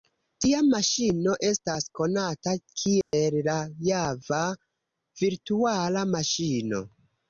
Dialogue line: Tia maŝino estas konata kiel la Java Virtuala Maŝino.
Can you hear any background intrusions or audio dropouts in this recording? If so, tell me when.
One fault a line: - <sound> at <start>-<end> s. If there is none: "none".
- dropout at 3.0-3.1 s